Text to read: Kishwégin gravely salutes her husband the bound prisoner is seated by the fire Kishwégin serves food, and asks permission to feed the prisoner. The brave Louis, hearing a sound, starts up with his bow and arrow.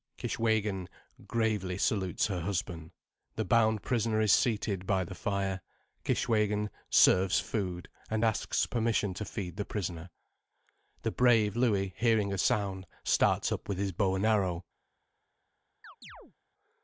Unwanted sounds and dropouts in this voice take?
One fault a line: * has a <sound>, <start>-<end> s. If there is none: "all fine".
* has a chirp, 15.8-16.3 s